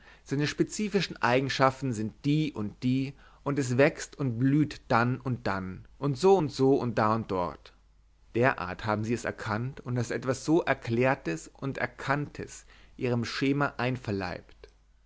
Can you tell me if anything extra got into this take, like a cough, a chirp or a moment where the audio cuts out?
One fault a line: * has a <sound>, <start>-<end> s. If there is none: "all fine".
all fine